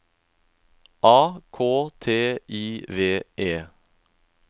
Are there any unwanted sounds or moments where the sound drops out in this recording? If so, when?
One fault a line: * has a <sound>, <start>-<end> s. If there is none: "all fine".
all fine